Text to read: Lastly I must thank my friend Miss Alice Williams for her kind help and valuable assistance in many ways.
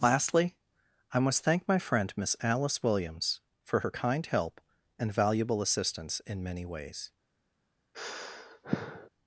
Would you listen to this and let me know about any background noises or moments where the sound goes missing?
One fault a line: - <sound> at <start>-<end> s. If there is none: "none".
- sigh at 7.9-9.1 s